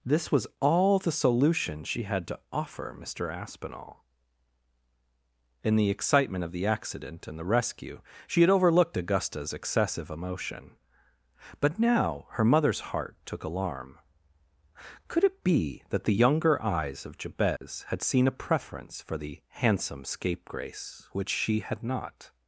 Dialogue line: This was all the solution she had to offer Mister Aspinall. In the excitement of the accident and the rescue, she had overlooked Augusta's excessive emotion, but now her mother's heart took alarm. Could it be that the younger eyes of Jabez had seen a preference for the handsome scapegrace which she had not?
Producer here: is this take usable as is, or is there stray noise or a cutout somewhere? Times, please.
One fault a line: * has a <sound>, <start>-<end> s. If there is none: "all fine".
* has a dropout, 17.6-17.6 s